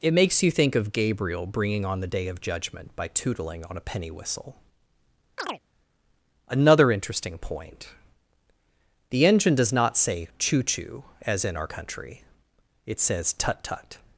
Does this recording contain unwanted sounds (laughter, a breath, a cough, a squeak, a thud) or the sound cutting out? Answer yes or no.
yes